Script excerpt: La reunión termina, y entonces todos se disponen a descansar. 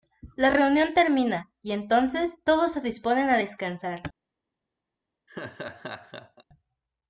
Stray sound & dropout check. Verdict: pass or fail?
fail